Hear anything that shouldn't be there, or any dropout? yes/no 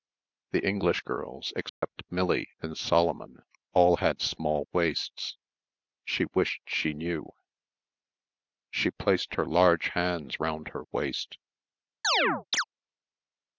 yes